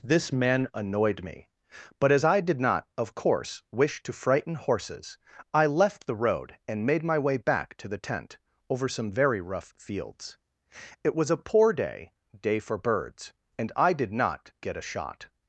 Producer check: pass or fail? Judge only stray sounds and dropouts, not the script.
pass